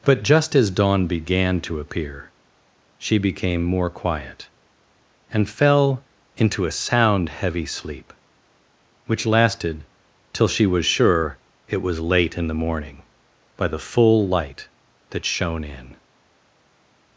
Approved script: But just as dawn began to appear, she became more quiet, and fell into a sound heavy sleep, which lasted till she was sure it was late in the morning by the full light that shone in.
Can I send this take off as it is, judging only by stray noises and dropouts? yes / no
yes